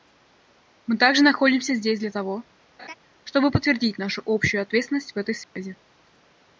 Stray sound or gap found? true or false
true